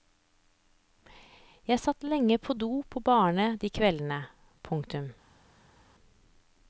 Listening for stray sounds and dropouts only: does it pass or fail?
pass